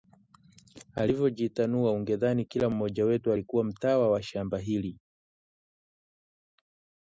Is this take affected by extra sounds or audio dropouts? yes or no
no